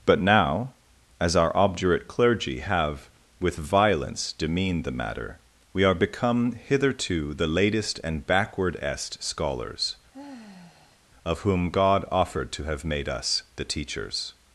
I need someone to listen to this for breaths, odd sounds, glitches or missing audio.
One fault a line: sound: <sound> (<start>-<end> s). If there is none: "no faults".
sound: sigh (10.1-11.0 s)